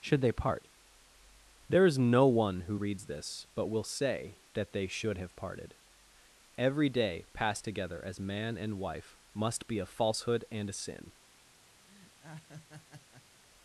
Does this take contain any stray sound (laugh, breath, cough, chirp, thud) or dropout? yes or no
yes